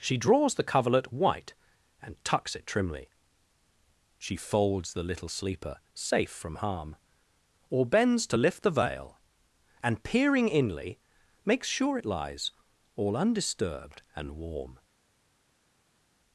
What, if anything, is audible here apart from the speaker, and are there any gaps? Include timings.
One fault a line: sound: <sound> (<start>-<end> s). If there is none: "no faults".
no faults